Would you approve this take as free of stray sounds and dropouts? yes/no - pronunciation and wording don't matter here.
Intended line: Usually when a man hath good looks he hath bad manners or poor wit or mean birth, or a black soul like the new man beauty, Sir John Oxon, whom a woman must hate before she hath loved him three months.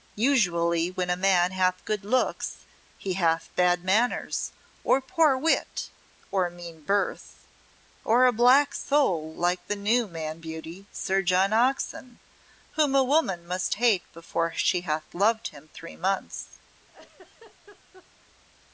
no